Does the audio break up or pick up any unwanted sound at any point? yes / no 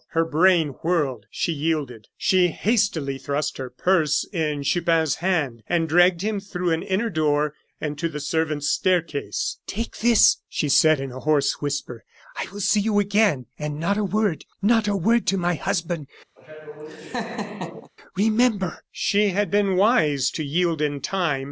yes